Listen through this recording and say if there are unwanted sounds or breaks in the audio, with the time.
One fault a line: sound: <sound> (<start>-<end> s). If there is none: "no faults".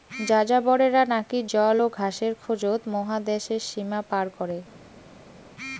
no faults